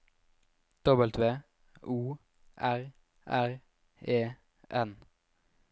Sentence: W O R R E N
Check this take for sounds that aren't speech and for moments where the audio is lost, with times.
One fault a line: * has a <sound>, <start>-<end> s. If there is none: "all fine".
all fine